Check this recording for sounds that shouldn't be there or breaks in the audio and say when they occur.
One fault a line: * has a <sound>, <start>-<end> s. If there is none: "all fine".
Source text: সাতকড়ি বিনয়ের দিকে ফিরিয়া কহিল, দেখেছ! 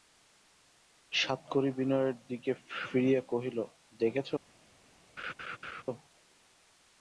* has a laugh, 5.2-5.8 s